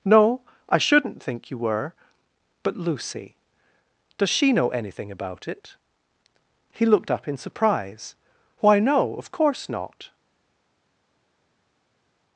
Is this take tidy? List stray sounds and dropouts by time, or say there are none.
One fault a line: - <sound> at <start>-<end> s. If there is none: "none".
none